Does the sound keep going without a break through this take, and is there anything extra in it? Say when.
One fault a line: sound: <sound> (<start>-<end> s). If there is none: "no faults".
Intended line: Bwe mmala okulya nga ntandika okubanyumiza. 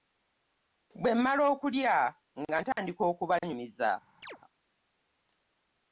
sound: dropout (2.7-2.8 s)
sound: chirp (4.2-4.4 s)